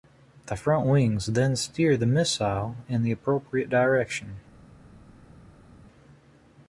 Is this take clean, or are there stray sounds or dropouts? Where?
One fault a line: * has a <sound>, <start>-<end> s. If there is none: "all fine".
all fine